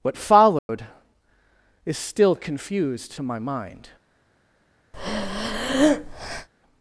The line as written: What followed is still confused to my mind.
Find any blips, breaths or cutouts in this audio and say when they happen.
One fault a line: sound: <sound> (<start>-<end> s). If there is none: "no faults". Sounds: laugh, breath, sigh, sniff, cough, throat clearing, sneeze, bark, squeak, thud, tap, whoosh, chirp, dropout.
sound: dropout (0.6-0.7 s)
sound: breath (4.9-6.5 s)